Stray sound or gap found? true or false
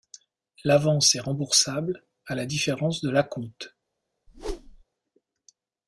true